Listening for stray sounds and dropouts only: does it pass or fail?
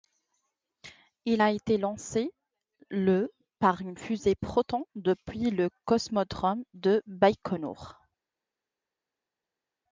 pass